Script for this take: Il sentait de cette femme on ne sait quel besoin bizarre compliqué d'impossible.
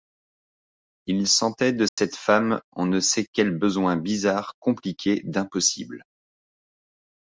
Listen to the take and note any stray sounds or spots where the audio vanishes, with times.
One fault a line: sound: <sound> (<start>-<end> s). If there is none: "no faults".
sound: dropout (1.9-2.0 s)